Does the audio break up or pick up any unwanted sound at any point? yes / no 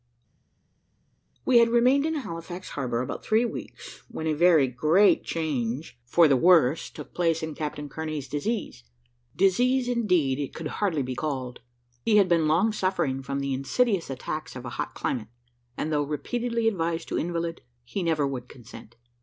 no